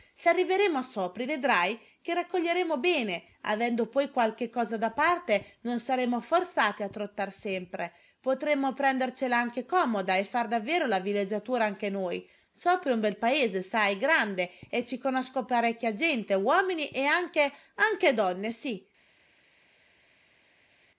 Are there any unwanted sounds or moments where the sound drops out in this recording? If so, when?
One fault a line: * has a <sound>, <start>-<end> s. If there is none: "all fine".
all fine